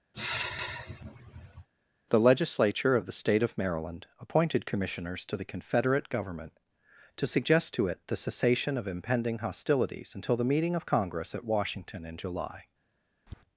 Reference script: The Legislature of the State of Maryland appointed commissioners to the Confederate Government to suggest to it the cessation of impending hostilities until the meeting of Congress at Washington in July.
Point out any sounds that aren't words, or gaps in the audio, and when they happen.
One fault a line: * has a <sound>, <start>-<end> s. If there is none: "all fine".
* has a sigh, 0.1-1.7 s
* has a tap, 13.3-13.4 s